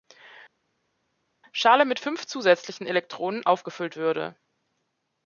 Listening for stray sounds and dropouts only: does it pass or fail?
pass